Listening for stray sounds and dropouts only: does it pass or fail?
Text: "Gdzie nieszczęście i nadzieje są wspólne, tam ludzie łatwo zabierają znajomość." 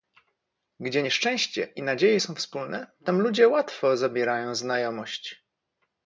pass